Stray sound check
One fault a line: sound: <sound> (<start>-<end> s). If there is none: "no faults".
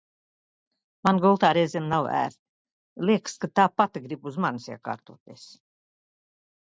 no faults